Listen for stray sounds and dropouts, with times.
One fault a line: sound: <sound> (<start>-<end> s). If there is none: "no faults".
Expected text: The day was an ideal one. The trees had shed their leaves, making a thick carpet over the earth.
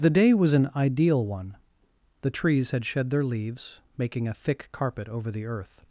no faults